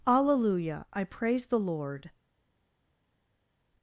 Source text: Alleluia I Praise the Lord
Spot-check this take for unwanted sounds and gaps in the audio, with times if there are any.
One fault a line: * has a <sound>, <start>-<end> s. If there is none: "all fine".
all fine